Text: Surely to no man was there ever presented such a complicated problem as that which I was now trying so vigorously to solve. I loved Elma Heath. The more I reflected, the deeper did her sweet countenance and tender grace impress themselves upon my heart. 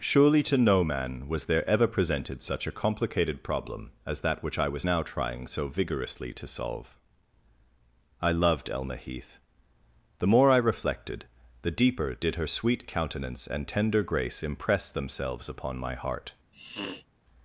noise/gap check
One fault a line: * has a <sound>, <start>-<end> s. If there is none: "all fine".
* has a sniff, 16.5-17.1 s